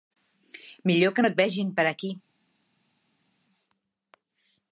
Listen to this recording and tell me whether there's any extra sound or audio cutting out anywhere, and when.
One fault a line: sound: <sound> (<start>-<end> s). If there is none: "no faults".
no faults